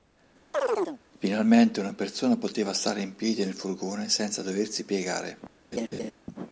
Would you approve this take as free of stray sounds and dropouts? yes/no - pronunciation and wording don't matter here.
no